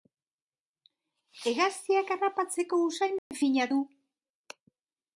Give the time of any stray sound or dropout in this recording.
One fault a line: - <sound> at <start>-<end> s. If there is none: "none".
- dropout at 3.2-3.3 s